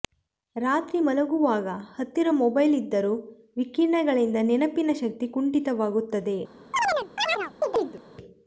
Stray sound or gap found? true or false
true